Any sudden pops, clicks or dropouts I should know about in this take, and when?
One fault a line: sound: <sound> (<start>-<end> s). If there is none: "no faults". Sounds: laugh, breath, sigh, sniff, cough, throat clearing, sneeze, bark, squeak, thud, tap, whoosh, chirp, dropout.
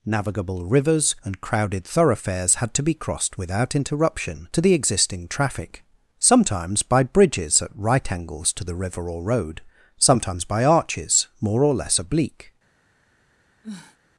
sound: sniff (13.6-14.0 s)